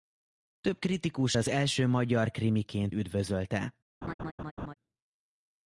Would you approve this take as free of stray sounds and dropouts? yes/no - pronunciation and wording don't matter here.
no